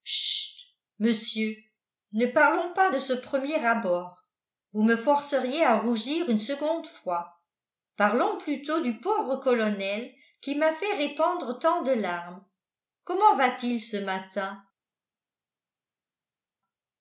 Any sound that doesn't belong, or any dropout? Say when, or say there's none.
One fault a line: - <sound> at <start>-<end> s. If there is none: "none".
none